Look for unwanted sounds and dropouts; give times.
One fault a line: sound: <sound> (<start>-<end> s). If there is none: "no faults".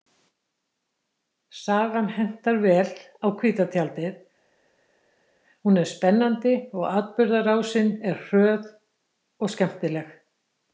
no faults